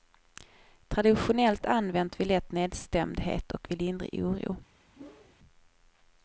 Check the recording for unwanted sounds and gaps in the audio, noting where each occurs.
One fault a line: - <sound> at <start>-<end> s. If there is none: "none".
- whoosh at 4.9-5.4 s